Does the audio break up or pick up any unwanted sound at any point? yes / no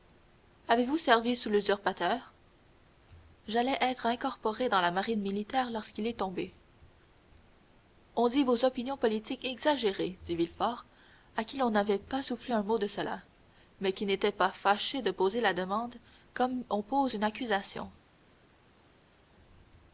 no